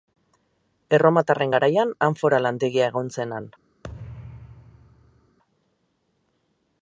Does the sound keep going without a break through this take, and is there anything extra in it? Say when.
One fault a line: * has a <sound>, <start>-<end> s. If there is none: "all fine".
* has a thud, 3.8-5.4 s